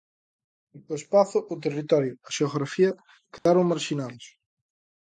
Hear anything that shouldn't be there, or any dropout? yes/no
yes